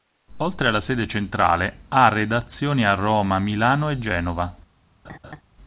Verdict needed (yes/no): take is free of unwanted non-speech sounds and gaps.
no